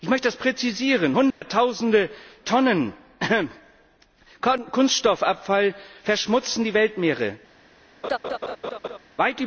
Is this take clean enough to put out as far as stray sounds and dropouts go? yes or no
no